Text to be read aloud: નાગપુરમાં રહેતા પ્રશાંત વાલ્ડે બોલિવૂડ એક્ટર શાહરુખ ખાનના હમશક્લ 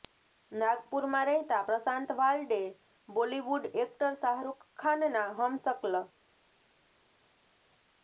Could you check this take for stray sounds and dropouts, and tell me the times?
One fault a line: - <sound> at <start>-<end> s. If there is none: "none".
none